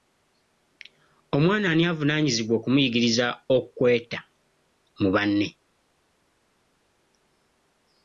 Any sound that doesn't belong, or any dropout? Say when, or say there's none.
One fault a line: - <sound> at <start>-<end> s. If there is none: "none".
none